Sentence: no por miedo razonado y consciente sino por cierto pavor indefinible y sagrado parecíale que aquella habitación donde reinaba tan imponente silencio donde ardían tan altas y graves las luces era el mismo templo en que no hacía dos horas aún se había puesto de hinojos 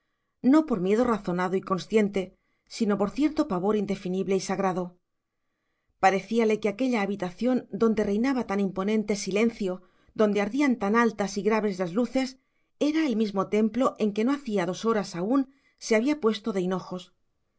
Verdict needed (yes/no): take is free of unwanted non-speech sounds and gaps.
yes